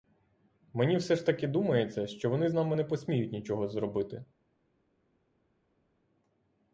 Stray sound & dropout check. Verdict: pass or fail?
pass